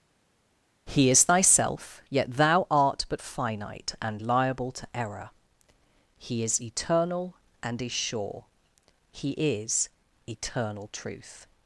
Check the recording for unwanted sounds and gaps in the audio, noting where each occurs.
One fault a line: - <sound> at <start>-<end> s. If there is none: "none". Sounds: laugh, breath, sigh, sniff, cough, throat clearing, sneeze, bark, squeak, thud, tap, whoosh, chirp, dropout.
none